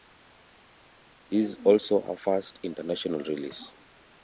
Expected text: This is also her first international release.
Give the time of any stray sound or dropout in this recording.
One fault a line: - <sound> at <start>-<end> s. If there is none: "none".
none